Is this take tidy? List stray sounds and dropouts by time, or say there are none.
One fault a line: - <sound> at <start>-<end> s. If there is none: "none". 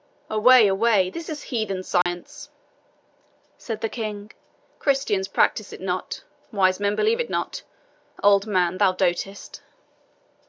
- dropout at 2.0-2.1 s